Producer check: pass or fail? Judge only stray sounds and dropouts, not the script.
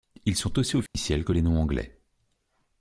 fail